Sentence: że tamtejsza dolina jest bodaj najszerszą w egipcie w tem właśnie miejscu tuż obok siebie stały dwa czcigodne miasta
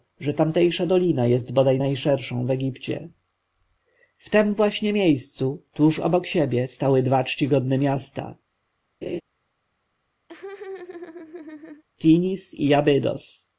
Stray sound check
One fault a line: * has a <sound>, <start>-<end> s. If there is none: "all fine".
* has a laugh, 9.0-9.2 s
* has a laugh, 10.3-11.8 s